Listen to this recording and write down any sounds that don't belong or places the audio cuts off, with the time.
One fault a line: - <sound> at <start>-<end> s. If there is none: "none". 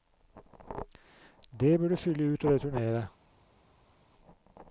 none